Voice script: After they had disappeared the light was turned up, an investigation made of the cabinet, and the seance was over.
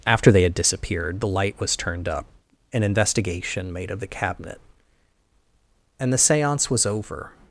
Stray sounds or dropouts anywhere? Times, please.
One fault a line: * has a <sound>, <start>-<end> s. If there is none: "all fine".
all fine